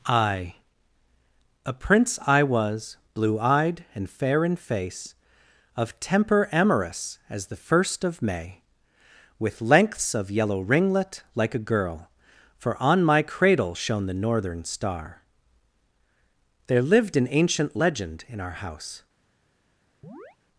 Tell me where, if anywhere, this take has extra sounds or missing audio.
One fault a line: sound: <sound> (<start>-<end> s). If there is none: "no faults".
sound: chirp (20.0-20.4 s)